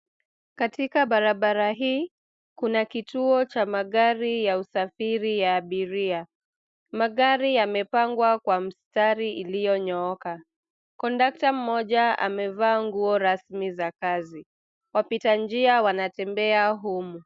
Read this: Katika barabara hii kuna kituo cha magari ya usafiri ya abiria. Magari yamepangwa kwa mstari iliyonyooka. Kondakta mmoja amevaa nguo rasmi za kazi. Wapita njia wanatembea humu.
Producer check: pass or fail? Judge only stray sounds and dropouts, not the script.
pass